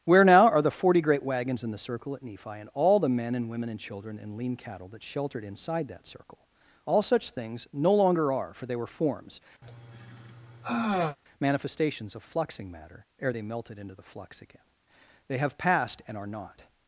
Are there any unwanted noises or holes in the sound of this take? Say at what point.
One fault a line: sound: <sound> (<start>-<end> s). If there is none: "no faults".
sound: sigh (9.6-11.2 s)